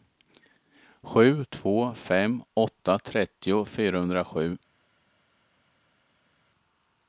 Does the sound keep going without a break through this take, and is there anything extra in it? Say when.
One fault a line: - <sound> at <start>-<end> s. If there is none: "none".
none